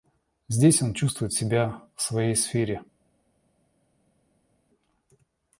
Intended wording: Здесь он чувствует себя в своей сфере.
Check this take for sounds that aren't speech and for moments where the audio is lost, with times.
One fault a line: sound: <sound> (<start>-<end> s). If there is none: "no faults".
no faults